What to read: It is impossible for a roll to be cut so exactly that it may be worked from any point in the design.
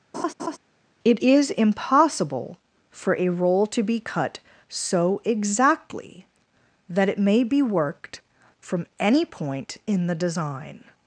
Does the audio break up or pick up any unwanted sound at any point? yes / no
yes